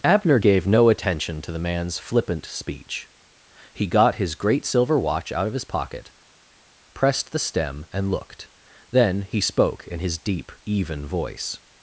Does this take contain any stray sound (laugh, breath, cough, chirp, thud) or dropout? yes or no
no